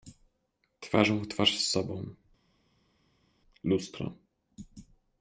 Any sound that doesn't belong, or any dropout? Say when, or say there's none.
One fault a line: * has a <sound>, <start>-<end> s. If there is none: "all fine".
all fine